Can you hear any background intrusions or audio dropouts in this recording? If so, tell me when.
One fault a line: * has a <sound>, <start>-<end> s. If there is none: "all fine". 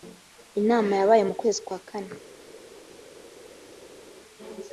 all fine